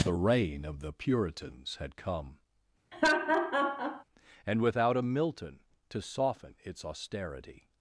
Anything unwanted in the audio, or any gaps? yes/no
yes